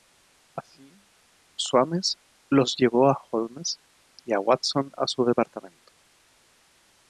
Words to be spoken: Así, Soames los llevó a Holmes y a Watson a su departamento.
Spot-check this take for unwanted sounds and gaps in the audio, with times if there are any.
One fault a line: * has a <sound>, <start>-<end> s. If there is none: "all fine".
all fine